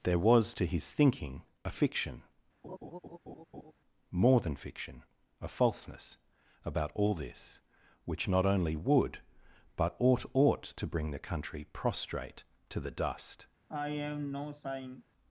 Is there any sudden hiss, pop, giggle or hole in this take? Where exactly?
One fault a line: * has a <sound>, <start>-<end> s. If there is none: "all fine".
* has a laugh, 2.6-3.7 s
* has a sigh, 13.7-15.0 s